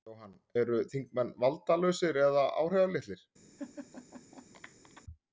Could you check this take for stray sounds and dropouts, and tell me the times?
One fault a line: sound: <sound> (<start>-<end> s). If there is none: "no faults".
sound: laugh (3.6-5.0 s)